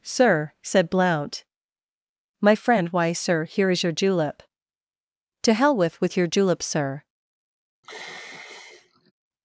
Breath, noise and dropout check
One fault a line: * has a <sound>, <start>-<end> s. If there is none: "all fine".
* has a sigh, 7.8-9.1 s